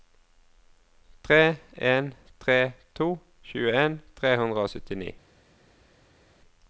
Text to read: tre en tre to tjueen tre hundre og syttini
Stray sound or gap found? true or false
false